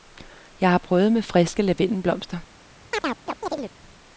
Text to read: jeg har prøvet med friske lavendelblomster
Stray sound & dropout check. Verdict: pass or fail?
fail